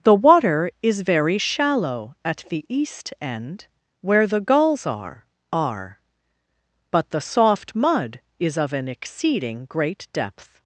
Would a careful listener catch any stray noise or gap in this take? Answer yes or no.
no